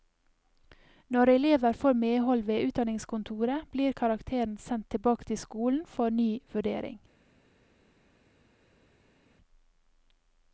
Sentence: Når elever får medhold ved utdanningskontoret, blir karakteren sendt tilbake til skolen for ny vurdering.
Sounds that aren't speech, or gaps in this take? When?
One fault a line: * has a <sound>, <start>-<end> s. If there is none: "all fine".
all fine